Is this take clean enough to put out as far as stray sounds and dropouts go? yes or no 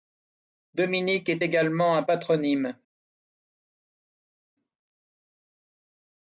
yes